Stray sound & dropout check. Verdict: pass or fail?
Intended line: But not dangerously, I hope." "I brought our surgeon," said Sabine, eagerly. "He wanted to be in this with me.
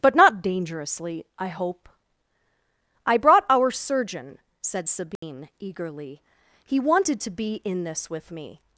fail